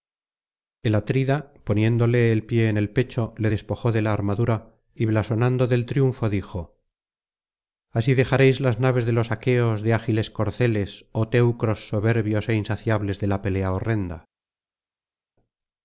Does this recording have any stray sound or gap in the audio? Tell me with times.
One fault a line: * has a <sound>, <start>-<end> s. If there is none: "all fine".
all fine